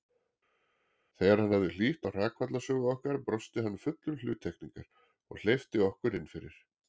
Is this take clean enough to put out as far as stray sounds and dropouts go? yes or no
yes